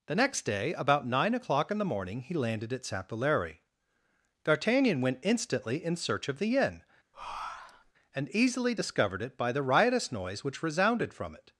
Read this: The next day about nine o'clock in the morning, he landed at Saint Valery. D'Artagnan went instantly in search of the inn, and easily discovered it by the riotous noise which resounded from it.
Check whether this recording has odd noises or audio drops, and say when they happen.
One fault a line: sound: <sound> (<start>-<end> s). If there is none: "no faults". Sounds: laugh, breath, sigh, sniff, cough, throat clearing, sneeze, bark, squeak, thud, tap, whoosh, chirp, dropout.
sound: breath (7.1-7.9 s)